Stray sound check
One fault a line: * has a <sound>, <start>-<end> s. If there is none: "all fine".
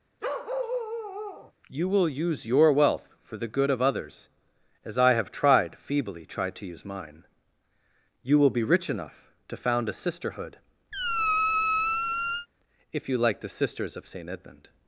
* has a bark, 0.2-1.5 s
* has a squeak, 10.9-12.5 s